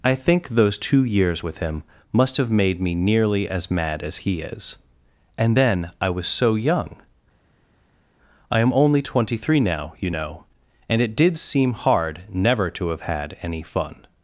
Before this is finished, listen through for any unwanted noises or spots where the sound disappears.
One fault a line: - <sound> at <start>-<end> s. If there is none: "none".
none